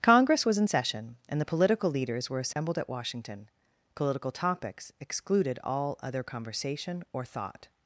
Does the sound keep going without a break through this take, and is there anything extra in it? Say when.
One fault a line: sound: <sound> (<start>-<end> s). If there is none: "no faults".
sound: dropout (2.5-2.6 s)